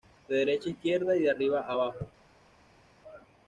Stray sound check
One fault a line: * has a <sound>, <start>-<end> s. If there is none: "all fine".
all fine